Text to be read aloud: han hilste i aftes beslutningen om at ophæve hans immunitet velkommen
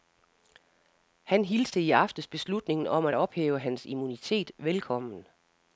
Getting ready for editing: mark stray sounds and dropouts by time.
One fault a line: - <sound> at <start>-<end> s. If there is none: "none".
none